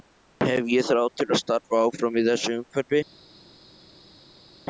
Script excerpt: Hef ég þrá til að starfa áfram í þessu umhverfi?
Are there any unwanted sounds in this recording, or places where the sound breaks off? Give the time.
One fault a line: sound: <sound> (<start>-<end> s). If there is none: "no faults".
no faults